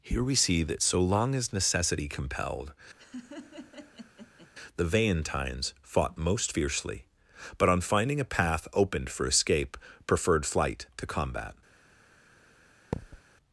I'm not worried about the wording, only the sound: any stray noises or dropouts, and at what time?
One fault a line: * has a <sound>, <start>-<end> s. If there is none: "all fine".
* has a laugh, 3.0-4.5 s
* has a thud, 12.9-13.2 s